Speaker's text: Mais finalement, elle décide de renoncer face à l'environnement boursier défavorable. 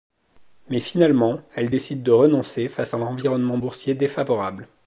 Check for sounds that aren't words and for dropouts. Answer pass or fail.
pass